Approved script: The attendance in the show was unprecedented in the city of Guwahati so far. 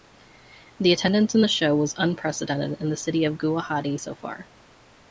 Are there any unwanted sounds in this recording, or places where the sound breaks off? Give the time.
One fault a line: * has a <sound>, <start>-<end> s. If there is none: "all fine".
all fine